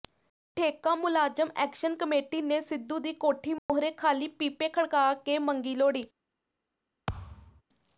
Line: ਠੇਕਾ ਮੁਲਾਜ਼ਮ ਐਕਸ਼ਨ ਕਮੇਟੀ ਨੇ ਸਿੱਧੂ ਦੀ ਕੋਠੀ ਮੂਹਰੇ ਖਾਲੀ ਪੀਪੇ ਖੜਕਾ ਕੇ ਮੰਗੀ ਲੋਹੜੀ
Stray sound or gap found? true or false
true